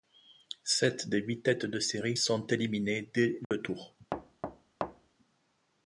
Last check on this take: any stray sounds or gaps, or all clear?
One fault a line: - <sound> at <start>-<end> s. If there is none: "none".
- dropout at 3.4-3.5 s
- thud at 4.1-5.2 s